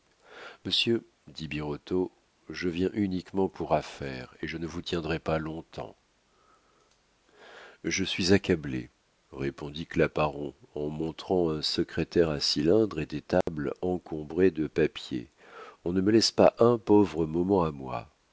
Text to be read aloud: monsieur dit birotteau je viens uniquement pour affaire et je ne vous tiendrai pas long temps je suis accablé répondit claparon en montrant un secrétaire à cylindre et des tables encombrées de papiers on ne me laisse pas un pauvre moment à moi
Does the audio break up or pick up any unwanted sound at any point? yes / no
yes